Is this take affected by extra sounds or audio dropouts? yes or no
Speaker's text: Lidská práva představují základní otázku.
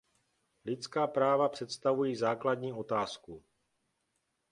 no